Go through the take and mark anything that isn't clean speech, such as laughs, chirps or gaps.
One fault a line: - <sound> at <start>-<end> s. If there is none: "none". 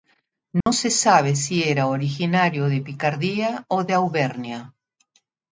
- dropout at 0.6-0.7 s